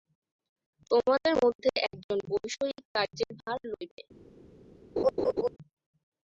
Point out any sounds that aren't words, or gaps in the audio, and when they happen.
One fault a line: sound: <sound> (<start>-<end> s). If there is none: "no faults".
sound: laugh (5.0-5.5 s)